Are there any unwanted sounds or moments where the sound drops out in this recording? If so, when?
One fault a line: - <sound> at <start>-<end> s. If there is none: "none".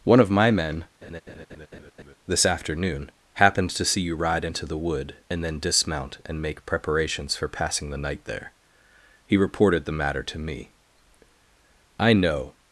- laugh at 1.0-2.2 s